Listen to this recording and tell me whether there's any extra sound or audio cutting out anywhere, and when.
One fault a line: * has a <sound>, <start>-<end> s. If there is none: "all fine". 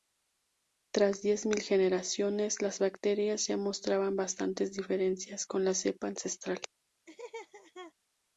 * has a laugh, 7.1-7.9 s